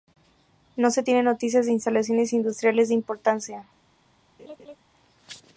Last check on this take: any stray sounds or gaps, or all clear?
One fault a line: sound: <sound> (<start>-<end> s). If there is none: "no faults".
sound: laugh (4.4-4.8 s)